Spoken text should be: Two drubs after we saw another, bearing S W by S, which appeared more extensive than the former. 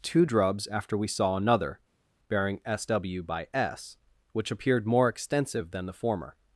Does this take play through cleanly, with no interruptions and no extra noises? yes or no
yes